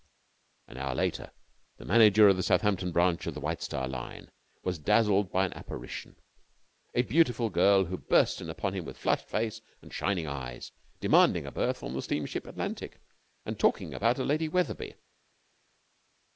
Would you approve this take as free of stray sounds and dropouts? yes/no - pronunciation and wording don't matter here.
yes